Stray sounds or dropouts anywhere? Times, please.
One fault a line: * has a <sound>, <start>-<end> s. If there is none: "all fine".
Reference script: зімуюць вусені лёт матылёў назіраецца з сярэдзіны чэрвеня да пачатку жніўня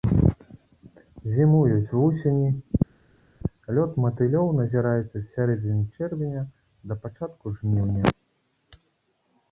all fine